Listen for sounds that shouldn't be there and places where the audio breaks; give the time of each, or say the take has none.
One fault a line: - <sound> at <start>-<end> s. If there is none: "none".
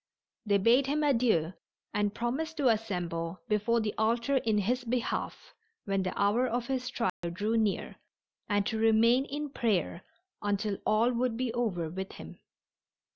- dropout at 7.1-7.2 s